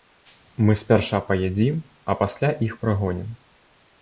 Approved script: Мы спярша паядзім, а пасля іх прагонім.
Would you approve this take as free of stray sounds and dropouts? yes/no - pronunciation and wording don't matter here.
yes